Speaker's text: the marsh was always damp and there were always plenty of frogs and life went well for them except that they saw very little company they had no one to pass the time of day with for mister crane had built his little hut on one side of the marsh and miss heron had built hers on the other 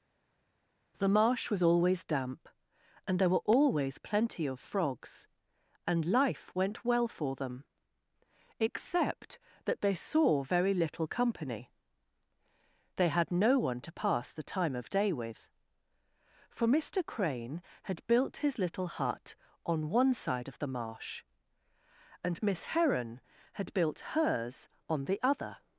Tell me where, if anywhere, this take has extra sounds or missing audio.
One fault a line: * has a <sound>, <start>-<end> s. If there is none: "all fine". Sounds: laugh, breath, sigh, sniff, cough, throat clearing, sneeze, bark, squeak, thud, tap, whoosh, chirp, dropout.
all fine